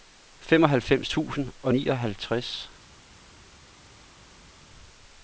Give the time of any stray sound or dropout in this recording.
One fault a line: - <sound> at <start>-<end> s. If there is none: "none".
none